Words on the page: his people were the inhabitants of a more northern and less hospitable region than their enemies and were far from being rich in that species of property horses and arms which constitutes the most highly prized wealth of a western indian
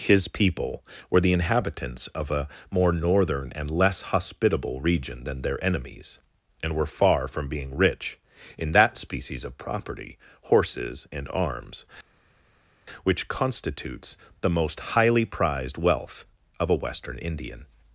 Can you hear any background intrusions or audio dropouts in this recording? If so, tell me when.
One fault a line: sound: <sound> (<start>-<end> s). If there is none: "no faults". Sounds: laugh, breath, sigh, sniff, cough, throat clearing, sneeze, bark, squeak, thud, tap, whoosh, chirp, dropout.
no faults